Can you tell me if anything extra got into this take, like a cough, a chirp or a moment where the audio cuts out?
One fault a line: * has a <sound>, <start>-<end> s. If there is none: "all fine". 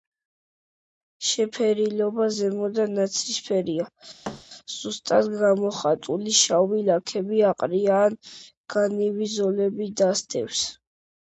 * has a thud, 4.2-4.4 s